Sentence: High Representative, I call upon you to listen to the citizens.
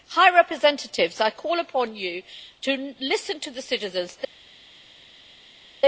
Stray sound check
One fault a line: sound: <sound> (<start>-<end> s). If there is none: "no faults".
no faults